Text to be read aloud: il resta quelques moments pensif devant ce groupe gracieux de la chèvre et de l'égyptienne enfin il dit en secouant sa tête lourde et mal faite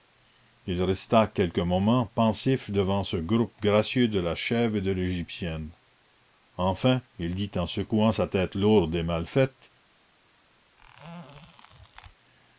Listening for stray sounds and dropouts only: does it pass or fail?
fail